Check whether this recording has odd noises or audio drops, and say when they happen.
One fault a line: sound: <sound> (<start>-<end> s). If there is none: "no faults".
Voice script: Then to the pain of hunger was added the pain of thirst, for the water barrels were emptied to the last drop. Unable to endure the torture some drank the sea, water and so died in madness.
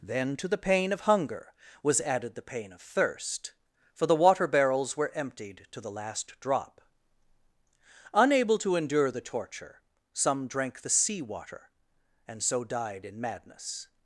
no faults